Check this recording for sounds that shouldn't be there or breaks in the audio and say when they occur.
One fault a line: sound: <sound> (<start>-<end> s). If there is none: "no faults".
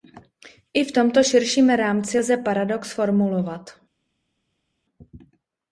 no faults